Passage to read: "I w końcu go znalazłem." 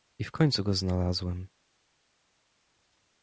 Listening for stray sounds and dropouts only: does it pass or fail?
pass